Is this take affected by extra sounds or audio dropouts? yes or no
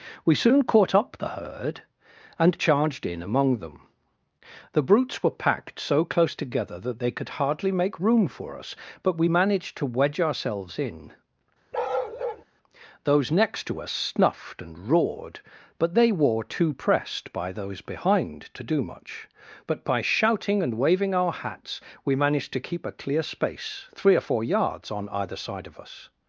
yes